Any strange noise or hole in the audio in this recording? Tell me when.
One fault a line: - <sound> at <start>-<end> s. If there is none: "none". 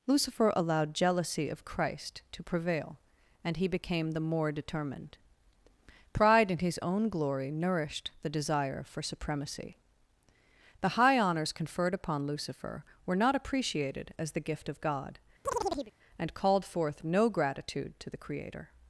- chirp at 15.4-15.9 s